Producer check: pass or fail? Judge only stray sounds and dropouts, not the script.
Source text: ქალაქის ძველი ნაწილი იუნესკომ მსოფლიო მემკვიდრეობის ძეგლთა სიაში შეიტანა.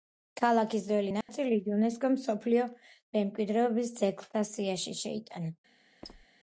fail